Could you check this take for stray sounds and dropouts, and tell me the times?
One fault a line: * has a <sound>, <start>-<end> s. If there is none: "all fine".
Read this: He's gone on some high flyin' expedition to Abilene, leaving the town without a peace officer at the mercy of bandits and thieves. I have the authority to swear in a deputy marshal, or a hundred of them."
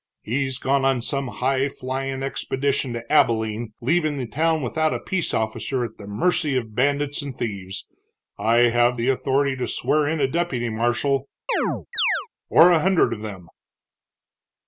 * has a chirp, 11.5-12.3 s